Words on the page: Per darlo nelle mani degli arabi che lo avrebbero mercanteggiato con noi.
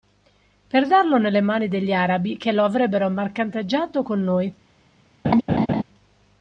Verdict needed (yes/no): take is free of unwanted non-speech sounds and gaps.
no